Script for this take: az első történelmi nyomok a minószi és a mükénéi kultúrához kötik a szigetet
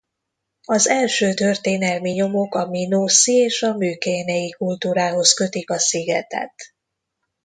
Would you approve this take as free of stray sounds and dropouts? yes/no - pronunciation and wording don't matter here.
yes